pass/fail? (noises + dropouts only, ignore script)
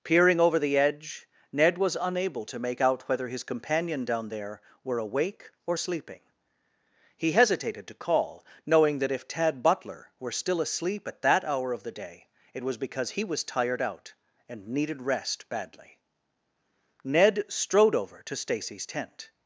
pass